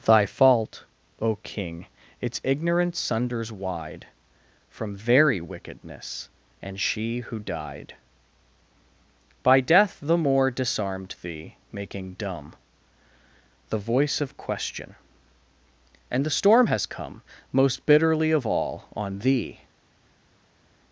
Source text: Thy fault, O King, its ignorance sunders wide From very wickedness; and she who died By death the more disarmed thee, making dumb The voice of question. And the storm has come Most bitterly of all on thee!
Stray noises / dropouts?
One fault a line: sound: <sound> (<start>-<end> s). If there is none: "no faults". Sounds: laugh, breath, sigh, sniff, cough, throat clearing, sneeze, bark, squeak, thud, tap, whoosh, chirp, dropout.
no faults